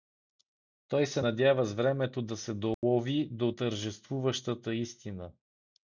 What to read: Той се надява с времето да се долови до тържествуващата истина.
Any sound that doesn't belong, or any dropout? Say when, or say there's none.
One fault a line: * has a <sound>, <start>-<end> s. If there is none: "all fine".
* has a dropout, 2.7-2.8 s